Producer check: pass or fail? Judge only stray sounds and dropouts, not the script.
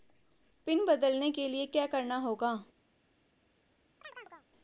fail